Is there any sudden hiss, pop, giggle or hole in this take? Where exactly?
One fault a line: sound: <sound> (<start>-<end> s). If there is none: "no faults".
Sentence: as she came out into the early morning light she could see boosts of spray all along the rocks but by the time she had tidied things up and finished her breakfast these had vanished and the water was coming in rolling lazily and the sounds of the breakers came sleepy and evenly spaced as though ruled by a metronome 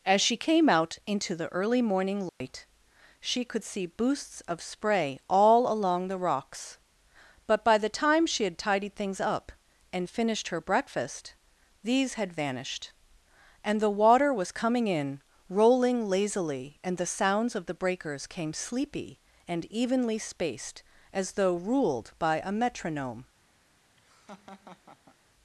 sound: dropout (2.3-2.4 s)
sound: laugh (24.0-25.2 s)